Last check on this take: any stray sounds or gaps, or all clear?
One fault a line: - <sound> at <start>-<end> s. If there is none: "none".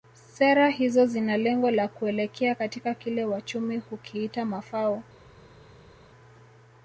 none